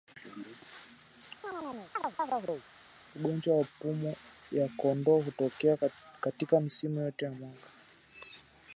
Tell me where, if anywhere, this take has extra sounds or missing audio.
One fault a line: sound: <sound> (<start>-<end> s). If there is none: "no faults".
sound: chirp (1.4-2.7 s)